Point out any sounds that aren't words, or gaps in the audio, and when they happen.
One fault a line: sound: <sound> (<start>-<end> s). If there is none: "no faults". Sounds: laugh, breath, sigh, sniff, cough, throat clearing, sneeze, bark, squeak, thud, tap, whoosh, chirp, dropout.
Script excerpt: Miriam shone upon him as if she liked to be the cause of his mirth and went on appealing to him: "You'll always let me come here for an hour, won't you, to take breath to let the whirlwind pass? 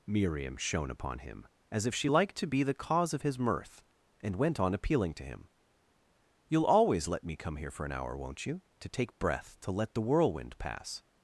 no faults